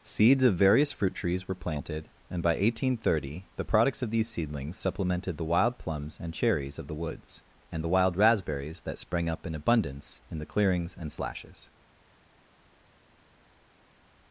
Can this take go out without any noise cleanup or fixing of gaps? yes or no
yes